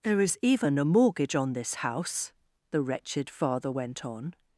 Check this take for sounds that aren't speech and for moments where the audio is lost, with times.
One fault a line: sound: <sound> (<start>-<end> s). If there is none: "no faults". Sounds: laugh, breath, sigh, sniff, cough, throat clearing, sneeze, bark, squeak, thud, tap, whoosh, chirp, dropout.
no faults